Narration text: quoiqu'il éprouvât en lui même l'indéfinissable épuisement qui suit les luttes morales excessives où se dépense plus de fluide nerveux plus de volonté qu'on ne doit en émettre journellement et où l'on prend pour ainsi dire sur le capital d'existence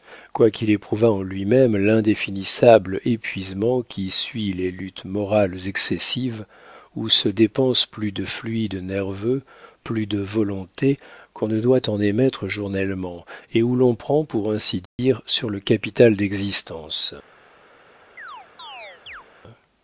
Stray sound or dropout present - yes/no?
yes